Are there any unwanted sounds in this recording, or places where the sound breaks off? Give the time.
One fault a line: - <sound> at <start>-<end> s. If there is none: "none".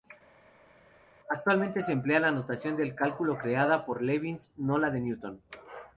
none